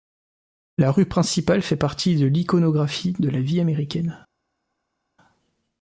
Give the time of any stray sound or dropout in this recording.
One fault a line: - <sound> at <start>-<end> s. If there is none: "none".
none